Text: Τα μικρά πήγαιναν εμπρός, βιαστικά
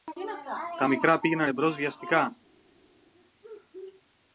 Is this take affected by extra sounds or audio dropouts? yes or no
no